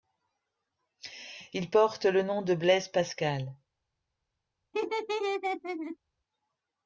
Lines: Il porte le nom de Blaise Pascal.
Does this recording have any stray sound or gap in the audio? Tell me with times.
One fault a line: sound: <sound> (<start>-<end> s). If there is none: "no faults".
sound: laugh (4.7-6.0 s)